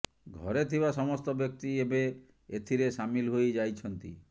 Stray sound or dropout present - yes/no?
no